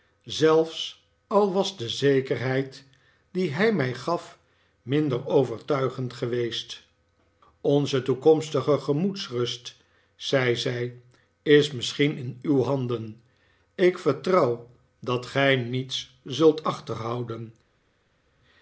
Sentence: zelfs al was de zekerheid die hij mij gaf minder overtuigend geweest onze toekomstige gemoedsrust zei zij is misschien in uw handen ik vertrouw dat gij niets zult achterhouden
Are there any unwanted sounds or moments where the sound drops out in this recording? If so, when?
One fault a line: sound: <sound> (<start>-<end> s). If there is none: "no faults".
no faults